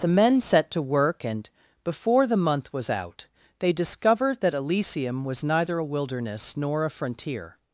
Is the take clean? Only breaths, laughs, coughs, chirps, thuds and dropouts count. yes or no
yes